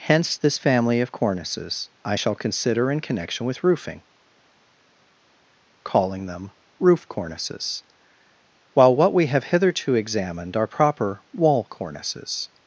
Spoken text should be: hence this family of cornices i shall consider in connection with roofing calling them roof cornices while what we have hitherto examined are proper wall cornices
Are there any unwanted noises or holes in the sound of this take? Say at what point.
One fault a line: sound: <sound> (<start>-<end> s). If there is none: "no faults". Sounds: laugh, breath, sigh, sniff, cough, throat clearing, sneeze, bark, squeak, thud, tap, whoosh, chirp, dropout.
no faults